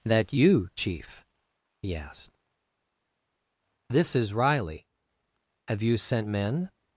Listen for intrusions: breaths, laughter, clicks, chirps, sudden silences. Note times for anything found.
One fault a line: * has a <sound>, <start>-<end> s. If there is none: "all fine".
all fine